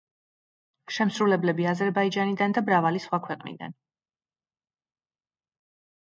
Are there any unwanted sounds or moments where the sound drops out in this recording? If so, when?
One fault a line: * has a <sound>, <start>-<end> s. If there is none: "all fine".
all fine